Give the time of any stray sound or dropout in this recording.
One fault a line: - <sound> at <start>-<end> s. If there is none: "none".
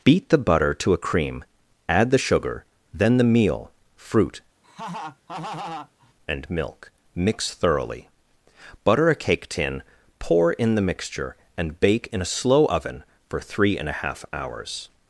- laugh at 4.6-6.1 s